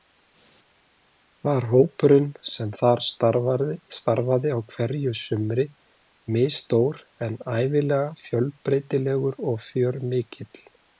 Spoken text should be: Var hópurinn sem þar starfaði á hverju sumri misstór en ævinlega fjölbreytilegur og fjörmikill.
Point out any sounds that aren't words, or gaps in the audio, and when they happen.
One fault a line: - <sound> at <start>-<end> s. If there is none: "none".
none